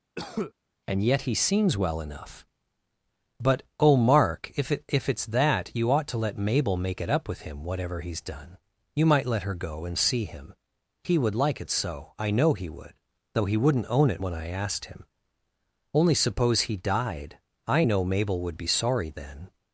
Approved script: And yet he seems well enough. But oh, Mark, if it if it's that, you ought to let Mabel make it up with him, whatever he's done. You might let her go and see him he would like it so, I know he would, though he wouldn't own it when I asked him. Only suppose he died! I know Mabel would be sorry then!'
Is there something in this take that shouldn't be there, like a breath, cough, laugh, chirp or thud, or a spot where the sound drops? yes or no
yes